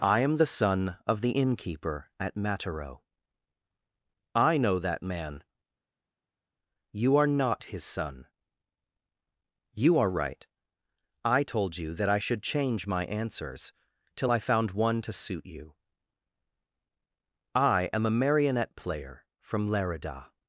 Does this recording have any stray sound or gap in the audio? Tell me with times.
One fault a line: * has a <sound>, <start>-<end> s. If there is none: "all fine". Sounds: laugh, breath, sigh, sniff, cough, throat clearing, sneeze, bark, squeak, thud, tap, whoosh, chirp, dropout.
all fine